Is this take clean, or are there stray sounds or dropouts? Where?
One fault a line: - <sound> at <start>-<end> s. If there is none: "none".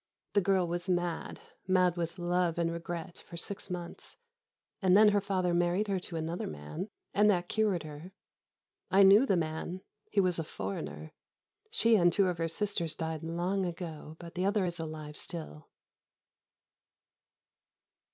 none